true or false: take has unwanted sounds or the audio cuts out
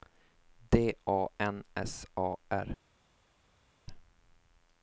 false